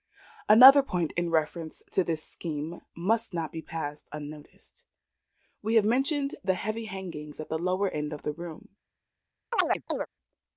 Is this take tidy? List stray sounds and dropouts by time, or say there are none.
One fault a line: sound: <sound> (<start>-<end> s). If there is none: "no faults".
sound: chirp (9.5-10.1 s)